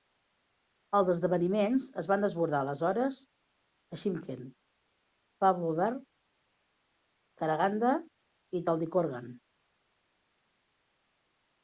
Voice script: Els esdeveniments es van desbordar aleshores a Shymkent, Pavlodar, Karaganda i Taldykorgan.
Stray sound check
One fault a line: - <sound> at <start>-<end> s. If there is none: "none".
none